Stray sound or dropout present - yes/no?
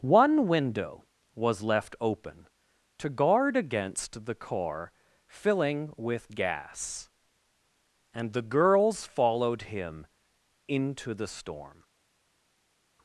no